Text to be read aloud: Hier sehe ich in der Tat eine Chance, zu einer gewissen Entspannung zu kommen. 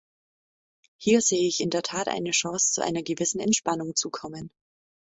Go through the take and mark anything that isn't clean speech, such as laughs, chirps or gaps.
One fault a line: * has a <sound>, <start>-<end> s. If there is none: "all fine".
all fine